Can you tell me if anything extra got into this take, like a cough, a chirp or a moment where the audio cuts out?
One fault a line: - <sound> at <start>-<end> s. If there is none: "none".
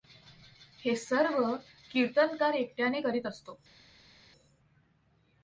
none